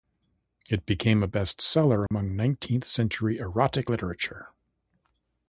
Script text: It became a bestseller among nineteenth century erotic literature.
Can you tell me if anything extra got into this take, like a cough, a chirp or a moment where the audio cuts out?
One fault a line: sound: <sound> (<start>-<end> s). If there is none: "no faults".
sound: dropout (2.1-2.1 s)